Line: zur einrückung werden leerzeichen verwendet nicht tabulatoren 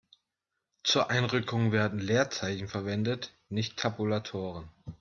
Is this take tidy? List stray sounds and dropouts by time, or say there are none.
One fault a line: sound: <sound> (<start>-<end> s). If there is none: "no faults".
no faults